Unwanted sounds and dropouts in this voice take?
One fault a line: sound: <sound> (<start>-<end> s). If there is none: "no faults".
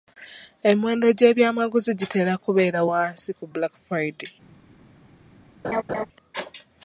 sound: laugh (5.6-6.1 s)